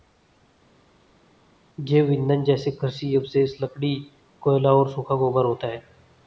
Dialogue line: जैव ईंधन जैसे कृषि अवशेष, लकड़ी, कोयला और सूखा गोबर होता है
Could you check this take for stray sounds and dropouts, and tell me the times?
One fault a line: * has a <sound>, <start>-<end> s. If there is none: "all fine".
all fine